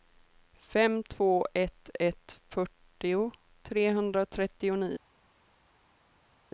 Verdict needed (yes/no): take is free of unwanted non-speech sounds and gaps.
yes